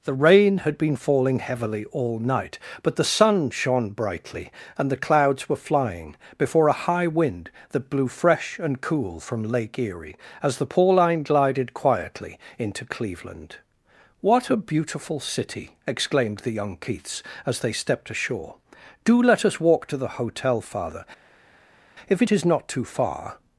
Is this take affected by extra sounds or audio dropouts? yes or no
no